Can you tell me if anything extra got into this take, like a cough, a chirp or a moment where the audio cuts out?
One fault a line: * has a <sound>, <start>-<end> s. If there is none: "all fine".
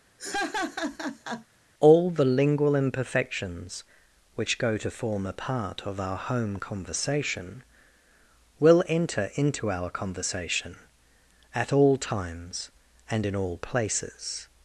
* has a laugh, 0.2-1.5 s